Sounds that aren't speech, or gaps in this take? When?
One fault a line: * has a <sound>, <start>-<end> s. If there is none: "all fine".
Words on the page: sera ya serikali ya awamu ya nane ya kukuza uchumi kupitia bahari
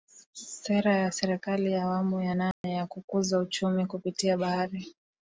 * has a dropout, 2.5-2.6 s